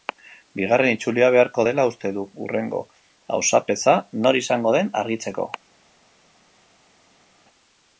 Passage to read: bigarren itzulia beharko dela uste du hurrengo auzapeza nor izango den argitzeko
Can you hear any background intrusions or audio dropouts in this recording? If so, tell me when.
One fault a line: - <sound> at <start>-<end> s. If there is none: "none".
none